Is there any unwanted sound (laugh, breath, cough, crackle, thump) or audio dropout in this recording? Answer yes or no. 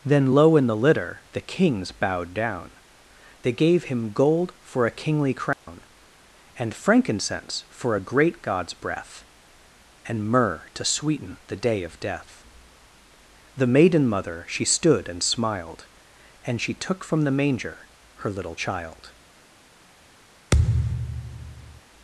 yes